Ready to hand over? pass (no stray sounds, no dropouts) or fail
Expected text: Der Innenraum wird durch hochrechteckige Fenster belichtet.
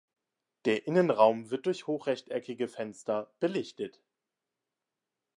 pass